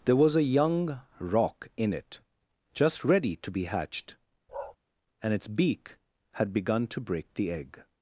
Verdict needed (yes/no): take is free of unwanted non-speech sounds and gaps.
no